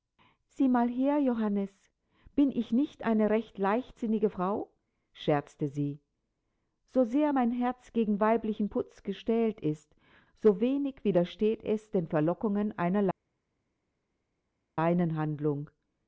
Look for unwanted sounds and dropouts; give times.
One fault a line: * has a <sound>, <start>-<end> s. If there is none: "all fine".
all fine